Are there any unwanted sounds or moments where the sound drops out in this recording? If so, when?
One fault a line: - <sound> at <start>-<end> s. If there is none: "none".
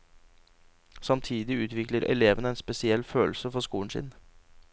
none